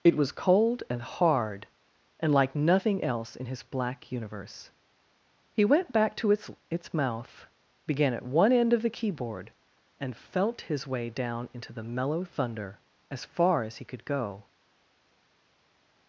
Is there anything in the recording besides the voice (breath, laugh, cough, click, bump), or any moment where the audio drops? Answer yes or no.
no